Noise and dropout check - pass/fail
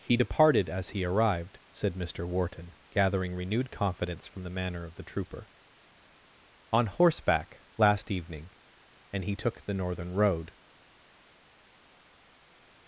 pass